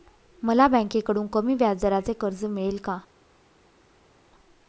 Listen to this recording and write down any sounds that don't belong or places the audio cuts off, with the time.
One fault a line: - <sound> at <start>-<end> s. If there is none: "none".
none